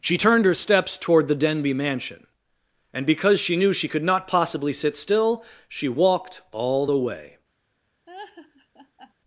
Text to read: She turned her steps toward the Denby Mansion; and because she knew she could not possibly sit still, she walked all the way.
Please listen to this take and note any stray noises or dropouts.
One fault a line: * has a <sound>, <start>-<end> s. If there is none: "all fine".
* has a laugh, 8.1-9.1 s